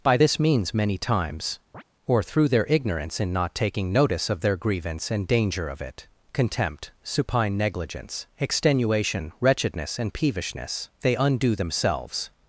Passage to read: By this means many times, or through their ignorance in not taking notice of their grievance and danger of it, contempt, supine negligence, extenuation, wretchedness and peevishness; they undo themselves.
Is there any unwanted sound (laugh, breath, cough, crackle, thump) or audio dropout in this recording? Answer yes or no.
yes